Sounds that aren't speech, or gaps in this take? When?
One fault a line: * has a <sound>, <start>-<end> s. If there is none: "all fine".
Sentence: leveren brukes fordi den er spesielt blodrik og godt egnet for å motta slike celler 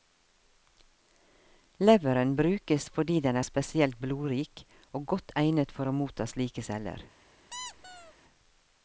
* has a squeak, 7.5-8.1 s